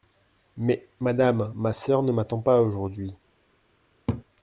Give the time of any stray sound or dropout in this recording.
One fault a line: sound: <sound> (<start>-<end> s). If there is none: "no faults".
sound: laugh (4.1-4.2 s)